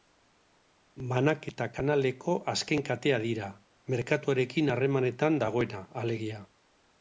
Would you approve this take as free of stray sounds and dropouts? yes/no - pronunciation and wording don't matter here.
yes